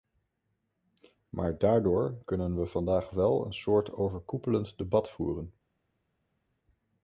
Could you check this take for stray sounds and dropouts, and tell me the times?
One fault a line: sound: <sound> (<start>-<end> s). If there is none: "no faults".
no faults